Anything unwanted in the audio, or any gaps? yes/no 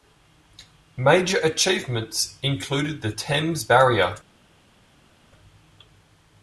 no